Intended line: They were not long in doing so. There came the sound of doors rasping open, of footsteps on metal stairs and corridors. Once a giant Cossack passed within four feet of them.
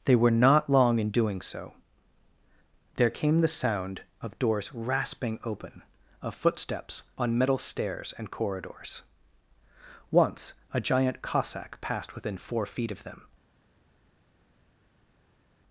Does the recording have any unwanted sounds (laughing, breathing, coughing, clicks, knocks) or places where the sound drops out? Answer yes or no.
no